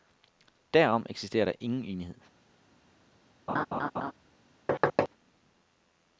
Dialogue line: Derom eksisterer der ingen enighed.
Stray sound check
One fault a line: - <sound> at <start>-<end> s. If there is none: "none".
- laugh at 3.5-4.1 s
- thud at 4.7-5.1 s